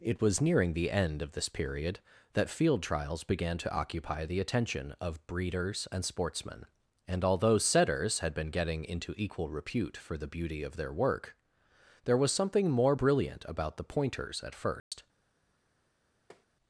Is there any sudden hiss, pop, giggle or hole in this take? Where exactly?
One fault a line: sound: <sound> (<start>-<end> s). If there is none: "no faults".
sound: dropout (14.8-14.9 s)
sound: tap (16.3-16.5 s)